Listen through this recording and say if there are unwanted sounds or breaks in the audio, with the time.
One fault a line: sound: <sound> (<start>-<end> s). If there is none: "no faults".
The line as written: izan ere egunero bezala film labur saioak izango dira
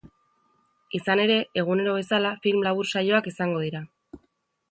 no faults